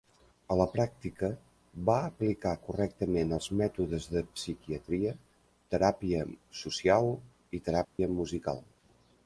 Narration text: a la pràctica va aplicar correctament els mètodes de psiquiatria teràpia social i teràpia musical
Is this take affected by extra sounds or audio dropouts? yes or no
yes